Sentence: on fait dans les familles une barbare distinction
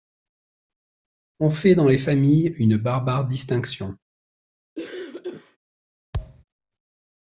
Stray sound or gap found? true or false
true